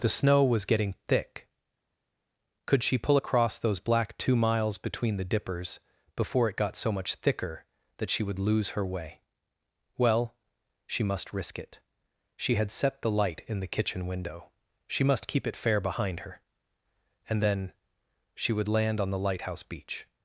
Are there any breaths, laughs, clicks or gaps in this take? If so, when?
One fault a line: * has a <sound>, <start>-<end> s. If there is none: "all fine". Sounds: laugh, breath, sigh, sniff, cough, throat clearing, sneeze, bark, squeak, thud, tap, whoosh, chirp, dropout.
all fine